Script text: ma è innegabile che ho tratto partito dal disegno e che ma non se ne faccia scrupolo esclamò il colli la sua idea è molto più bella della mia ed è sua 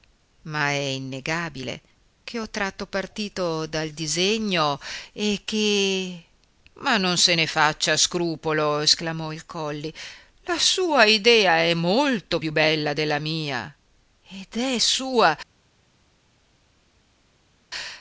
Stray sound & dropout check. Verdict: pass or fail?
pass